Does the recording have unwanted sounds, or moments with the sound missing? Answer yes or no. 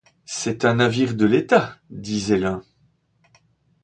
no